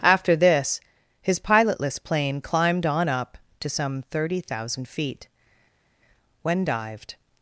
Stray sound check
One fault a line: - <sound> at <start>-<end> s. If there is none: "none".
none